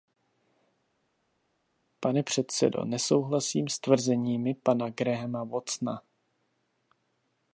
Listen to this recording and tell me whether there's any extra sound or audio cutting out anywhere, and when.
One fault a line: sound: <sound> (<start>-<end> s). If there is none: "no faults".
no faults